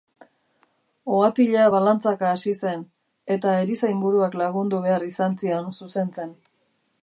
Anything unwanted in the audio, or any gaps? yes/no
no